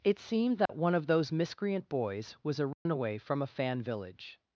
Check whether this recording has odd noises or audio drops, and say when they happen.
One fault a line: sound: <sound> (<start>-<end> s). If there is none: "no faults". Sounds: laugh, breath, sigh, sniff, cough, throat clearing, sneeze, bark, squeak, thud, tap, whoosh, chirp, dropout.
sound: dropout (0.7-0.7 s)
sound: dropout (2.7-2.9 s)